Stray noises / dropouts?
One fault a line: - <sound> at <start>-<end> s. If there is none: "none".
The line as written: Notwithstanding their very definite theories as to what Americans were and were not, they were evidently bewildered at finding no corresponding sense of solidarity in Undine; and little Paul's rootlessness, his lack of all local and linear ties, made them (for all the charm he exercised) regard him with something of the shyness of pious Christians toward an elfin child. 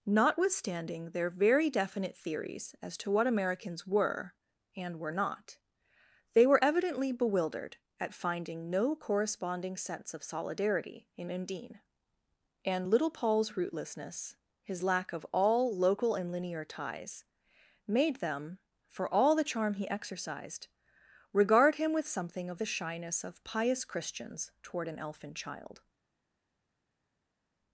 none